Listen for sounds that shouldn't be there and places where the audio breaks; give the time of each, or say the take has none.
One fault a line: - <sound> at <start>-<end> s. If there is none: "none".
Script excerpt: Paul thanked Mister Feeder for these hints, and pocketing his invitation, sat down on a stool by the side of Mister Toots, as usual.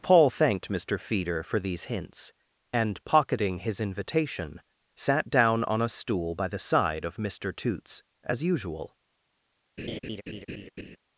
- laugh at 9.8-11.0 s